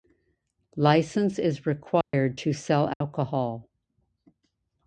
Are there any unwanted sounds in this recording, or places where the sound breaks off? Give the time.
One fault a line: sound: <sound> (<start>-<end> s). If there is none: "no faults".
sound: dropout (2.0-2.1 s)
sound: dropout (2.9-3.0 s)